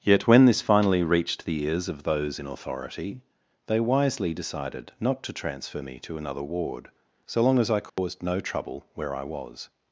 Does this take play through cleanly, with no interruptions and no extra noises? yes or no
no